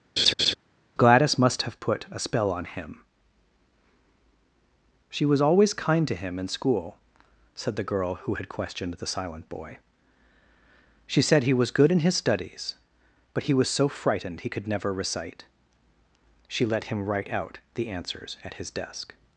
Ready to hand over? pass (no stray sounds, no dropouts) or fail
fail